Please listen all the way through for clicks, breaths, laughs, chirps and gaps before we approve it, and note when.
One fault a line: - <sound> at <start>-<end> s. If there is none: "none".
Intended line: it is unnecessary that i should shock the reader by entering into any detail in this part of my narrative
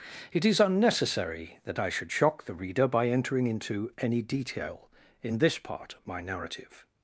none